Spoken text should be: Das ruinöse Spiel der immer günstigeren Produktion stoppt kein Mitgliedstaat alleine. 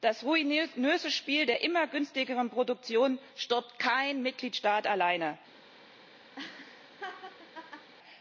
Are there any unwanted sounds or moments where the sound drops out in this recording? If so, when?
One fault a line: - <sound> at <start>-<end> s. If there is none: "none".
- laugh at 6.3-7.9 s